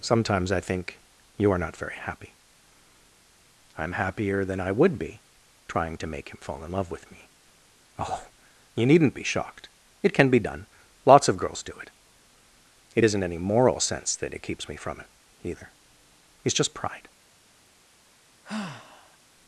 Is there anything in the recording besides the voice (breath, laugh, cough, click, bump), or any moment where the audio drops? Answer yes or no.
yes